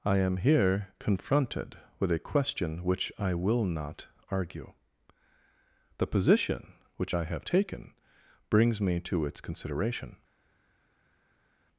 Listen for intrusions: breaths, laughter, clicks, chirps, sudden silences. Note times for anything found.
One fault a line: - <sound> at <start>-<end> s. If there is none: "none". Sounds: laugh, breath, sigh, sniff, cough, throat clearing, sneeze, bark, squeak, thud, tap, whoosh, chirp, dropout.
none